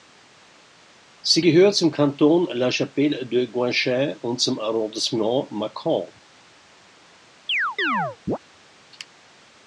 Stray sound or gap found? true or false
true